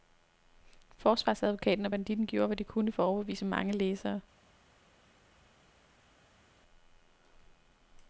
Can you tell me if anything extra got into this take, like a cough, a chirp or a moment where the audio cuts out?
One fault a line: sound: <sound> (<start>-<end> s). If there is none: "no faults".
no faults